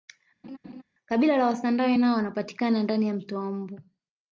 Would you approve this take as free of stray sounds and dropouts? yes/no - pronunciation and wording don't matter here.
no